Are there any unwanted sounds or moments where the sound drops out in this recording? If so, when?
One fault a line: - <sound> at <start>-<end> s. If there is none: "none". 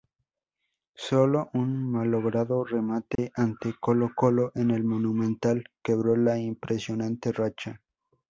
- dropout at 3.2-3.2 s